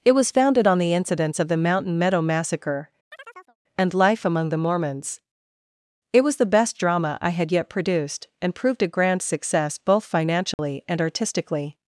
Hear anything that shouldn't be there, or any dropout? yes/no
yes